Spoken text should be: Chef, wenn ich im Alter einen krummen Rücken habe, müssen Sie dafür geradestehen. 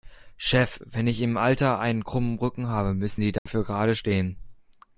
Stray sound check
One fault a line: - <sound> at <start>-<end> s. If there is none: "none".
- dropout at 3.4-3.5 s